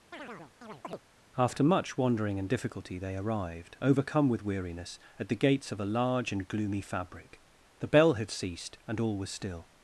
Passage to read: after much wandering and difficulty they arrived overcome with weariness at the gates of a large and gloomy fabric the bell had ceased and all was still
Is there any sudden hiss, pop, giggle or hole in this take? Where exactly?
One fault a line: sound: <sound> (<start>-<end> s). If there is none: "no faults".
sound: chirp (0.1-1.0 s)